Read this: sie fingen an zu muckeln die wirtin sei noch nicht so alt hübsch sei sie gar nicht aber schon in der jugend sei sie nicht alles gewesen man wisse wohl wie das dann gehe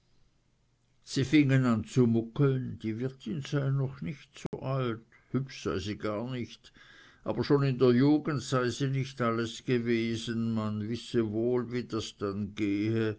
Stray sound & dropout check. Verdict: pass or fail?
fail